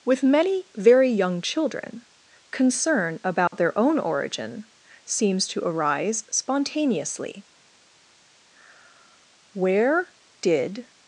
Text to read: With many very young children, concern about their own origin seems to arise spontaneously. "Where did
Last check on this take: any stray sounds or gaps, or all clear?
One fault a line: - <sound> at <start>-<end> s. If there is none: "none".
- dropout at 3.5-3.5 s